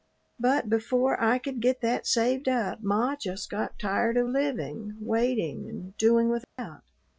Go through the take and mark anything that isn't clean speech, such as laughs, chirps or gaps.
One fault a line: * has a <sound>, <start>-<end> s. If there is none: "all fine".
* has a dropout, 6.4-6.6 s